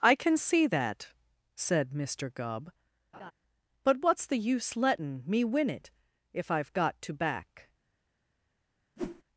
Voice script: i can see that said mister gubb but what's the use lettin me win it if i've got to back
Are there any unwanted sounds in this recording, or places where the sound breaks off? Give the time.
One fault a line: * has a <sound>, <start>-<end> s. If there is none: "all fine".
* has a laugh, 3.1-3.3 s
* has a whoosh, 9.0-9.2 s